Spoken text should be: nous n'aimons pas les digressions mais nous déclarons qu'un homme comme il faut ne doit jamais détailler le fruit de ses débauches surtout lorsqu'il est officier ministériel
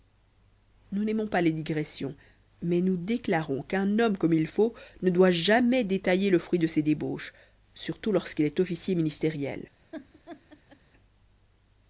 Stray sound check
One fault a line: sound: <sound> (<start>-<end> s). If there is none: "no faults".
sound: laugh (9.9-10.8 s)